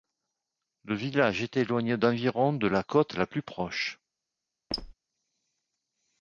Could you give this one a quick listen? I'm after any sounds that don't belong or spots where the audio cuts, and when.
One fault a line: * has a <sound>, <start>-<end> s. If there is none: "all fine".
* has a squeak, 4.7-4.9 s